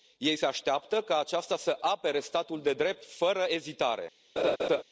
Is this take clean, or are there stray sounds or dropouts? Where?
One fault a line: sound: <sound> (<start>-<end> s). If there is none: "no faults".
sound: laugh (4.4-4.8 s)